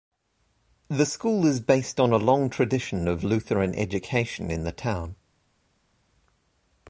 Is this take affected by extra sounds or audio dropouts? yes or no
no